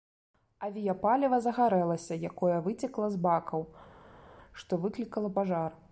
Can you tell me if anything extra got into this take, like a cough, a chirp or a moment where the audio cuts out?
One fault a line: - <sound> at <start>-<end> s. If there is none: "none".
none